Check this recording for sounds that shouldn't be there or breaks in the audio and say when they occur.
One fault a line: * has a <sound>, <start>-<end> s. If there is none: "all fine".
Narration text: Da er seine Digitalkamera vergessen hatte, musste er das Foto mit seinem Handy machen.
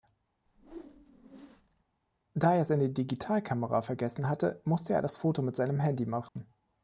* has a whoosh, 0.5-1.8 s
* has a dropout, 6.3-6.4 s